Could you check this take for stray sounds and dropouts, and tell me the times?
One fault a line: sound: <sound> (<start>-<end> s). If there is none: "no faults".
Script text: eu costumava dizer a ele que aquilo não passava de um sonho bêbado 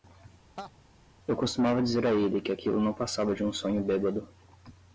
sound: laugh (0.6-0.7 s)